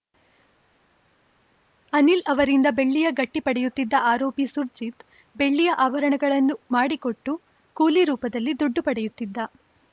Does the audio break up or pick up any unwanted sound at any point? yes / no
no